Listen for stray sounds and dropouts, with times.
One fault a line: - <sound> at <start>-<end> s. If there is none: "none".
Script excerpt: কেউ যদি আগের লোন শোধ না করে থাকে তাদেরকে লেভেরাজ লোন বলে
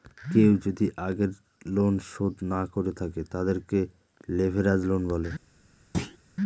- thud at 5.9-6.2 s